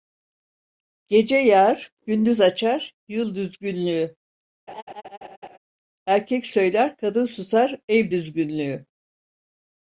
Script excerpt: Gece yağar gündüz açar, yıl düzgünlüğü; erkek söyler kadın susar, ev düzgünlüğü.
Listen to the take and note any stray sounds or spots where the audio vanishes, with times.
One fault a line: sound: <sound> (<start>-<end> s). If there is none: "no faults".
sound: laugh (4.7-5.6 s)